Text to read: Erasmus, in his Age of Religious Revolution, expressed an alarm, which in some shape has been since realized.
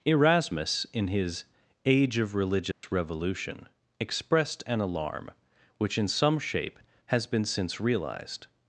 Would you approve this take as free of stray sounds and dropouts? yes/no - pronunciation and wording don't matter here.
no